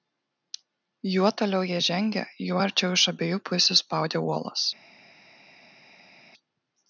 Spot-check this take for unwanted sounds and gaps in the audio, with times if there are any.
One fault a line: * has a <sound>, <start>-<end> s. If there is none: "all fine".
all fine